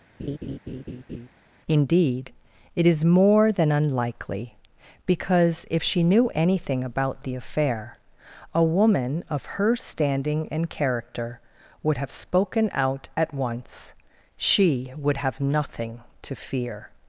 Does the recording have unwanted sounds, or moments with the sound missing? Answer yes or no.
yes